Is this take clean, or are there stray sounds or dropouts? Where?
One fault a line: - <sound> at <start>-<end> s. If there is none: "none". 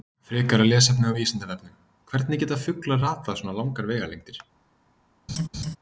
- laugh at 5.3-5.8 s